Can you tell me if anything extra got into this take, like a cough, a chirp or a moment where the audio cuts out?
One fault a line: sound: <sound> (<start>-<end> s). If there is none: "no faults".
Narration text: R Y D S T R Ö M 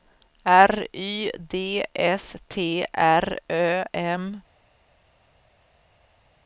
no faults